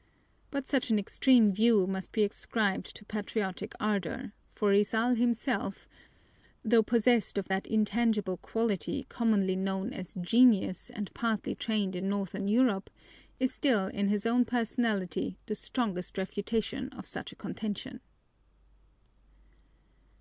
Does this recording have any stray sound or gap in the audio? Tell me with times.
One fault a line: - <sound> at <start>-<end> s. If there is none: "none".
none